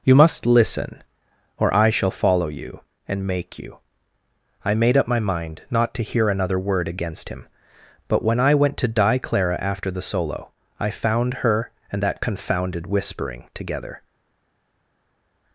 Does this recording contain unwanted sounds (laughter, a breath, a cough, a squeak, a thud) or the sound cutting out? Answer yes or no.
no